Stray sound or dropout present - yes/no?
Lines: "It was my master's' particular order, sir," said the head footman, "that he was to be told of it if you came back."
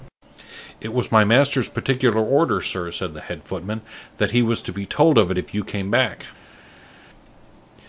no